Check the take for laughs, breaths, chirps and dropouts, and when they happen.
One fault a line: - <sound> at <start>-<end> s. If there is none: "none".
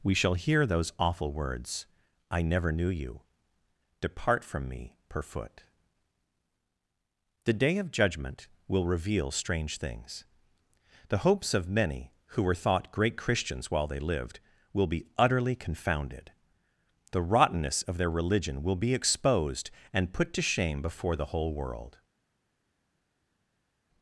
none